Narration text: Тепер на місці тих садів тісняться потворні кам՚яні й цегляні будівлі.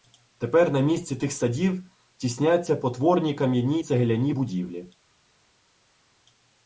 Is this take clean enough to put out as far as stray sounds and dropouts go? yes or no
yes